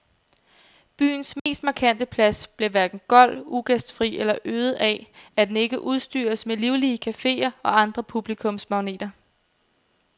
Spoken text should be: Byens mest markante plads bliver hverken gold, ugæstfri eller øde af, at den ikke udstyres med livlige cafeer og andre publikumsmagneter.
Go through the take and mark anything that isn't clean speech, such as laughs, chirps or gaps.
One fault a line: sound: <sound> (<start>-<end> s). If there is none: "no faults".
sound: dropout (1.4-1.5 s)